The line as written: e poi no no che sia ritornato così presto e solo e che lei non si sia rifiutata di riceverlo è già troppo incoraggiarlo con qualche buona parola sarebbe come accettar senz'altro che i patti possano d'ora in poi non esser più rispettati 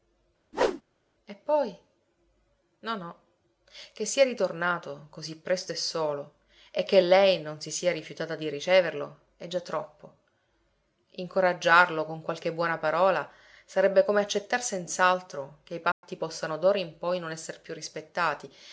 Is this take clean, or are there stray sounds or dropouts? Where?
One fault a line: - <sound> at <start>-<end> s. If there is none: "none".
- whoosh at 0.5-0.8 s
- dropout at 15.9-16.0 s